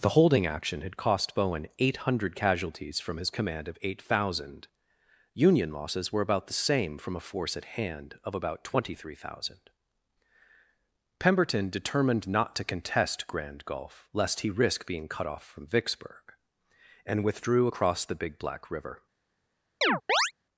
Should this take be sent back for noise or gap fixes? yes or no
yes